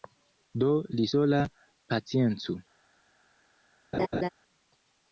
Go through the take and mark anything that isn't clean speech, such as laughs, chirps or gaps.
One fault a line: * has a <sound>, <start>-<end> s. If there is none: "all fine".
* has a laugh, 3.9-4.3 s